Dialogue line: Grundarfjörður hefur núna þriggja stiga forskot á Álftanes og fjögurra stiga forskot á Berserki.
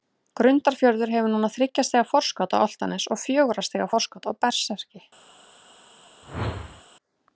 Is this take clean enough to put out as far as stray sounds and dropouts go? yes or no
no